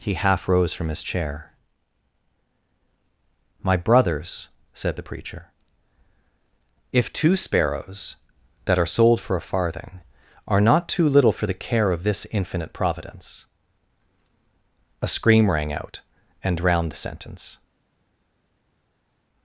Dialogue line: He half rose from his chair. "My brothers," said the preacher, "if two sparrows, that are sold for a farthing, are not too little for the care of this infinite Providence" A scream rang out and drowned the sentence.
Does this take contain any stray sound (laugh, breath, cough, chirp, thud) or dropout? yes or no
no